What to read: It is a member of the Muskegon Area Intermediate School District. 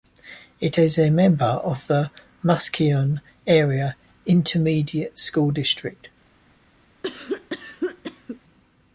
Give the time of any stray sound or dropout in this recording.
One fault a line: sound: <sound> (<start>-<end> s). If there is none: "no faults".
sound: cough (7.0-8.4 s)